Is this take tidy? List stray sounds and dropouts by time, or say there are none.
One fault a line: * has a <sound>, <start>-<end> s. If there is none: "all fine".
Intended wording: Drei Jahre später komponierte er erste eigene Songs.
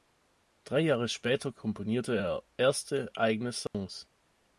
* has a dropout, 3.7-3.7 s